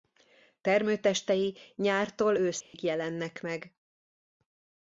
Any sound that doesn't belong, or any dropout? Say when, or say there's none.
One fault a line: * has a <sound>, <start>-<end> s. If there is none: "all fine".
* has a dropout, 2.6-2.7 s